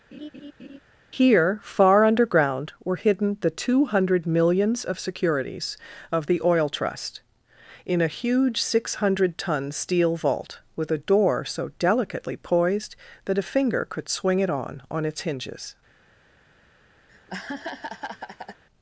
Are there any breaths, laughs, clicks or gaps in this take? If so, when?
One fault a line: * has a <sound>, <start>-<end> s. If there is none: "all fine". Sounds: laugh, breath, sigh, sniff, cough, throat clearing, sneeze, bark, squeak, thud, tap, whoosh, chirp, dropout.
* has a laugh, 0.1-0.8 s
* has a laugh, 17.1-18.6 s